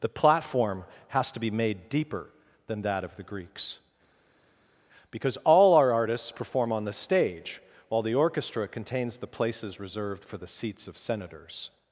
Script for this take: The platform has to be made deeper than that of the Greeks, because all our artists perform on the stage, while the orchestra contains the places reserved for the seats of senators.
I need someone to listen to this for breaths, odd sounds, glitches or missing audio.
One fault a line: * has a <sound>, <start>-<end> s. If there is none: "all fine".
all fine